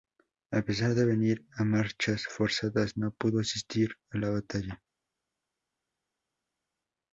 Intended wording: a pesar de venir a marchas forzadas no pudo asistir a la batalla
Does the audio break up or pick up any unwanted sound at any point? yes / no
no